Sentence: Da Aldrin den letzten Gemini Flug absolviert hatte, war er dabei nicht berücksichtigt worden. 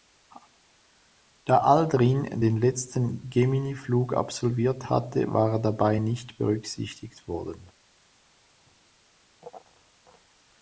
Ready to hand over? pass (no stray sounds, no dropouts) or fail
pass